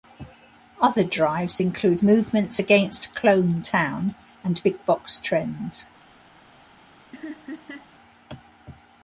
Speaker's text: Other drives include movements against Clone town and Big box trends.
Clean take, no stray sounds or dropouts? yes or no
no